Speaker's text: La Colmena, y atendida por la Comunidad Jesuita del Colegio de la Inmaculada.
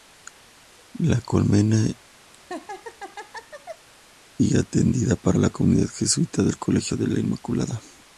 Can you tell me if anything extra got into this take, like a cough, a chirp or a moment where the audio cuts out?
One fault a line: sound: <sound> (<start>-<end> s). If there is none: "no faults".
sound: laugh (2.3-3.9 s)